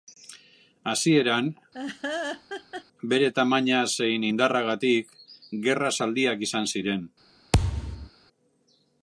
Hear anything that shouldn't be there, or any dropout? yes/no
yes